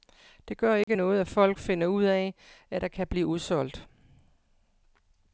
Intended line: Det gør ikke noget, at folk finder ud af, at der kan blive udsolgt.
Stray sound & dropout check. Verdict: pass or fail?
fail